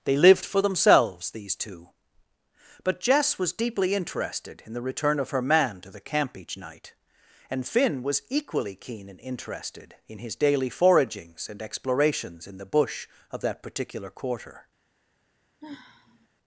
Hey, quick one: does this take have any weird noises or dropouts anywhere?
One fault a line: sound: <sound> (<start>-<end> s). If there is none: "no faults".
sound: sigh (15.6-16.3 s)